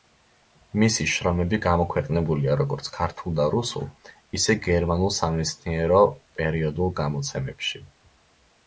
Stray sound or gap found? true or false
false